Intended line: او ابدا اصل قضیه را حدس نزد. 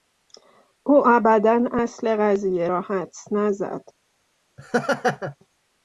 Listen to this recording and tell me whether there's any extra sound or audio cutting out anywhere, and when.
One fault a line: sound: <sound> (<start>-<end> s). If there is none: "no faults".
sound: laugh (4.6-5.4 s)